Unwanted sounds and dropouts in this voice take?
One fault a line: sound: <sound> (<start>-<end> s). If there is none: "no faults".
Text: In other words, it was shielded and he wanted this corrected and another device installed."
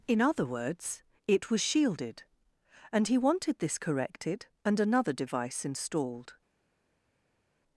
no faults